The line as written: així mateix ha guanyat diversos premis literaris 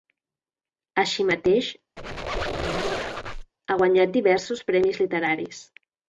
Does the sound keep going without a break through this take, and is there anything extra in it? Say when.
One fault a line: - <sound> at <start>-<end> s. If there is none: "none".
- squeak at 2.0-3.5 s